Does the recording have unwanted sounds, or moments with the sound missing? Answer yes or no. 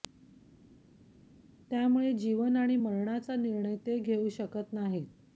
no